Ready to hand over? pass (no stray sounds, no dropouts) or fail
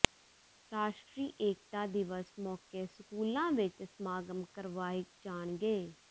pass